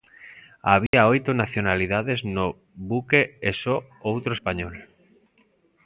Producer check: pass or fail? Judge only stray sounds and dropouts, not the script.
fail